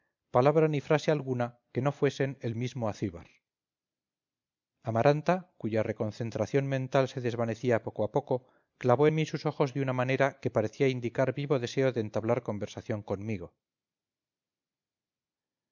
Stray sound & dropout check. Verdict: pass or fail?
pass